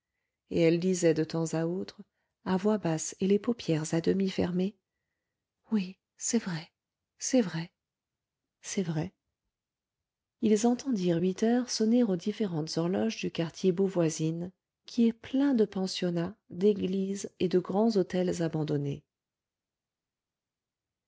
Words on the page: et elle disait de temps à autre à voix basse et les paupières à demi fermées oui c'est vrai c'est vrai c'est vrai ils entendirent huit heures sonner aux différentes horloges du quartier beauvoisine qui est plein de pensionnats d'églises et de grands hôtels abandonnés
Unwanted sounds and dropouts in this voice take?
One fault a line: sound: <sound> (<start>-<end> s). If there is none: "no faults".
no faults